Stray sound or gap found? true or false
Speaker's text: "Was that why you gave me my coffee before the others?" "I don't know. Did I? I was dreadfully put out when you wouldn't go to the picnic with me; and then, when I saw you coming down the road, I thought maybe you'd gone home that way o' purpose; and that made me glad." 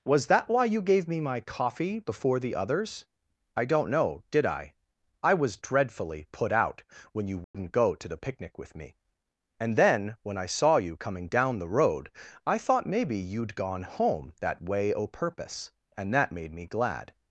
true